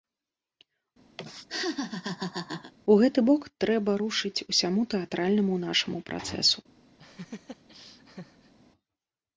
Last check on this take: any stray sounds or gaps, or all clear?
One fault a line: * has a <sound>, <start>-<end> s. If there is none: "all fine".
* has a laugh, 1.2-2.7 s
* has a laugh, 7.0-8.5 s